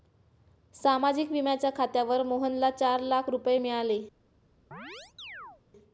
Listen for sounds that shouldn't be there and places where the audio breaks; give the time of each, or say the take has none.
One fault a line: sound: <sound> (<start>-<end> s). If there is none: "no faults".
sound: chirp (4.7-5.6 s)